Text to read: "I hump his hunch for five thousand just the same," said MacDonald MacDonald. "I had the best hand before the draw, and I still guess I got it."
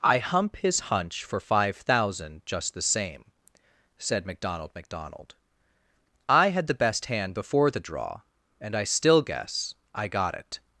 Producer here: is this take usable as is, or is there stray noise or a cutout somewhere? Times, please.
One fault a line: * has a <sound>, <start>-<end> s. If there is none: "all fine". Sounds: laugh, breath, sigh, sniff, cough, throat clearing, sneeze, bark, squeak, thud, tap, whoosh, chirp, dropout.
all fine